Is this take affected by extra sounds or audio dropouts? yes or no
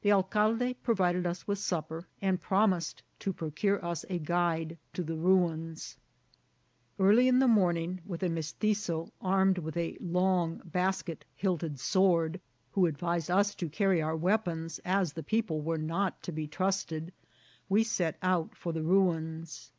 no